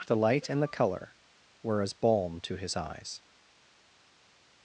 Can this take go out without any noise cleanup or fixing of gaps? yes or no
yes